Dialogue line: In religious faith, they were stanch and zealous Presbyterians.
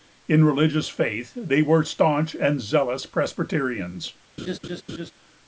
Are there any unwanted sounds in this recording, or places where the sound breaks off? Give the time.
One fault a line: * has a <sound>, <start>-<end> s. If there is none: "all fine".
* has a laugh, 4.4-5.1 s